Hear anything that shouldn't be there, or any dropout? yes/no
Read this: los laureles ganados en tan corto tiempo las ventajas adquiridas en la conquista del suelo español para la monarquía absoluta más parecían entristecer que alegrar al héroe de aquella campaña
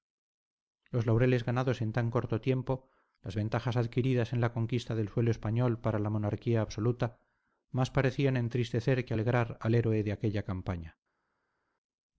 no